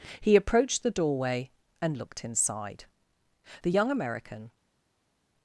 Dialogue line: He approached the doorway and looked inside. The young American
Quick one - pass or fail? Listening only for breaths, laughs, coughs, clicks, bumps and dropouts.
pass